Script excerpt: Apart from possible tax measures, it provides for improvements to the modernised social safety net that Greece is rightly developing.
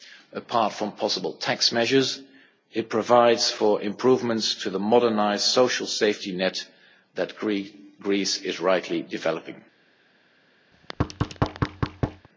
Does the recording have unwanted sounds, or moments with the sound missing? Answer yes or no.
yes